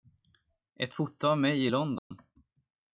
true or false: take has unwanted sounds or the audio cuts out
true